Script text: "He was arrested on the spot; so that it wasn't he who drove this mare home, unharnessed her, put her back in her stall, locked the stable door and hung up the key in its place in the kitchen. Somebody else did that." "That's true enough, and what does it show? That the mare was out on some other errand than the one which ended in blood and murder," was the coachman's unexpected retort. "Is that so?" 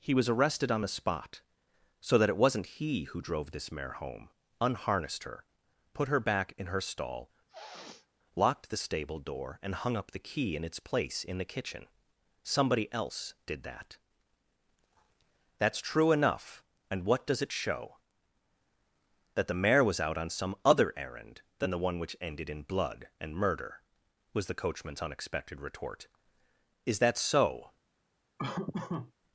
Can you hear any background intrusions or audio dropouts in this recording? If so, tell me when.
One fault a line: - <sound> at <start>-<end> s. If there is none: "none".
- sniff at 7.5-8.1 s
- laugh at 28.4-29.1 s